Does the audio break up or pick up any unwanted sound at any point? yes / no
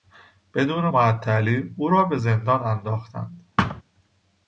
yes